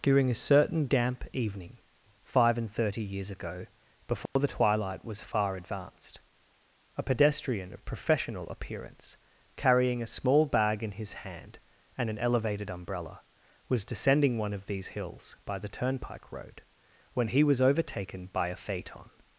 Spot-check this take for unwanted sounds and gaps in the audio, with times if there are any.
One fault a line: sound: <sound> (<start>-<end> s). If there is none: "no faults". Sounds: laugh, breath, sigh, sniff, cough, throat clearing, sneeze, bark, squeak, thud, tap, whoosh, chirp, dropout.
sound: dropout (4.3-4.4 s)